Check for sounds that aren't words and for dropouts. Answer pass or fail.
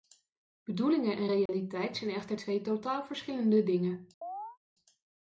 fail